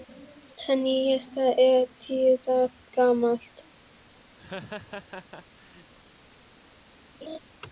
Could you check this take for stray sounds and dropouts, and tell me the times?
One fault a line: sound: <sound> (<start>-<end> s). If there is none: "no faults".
sound: laugh (4.4-5.9 s)
sound: laugh (7.2-7.4 s)